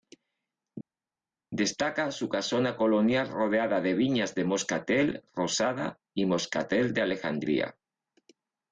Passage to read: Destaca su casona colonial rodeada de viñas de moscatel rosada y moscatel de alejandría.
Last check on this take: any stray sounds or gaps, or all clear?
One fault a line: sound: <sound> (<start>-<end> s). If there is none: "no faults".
no faults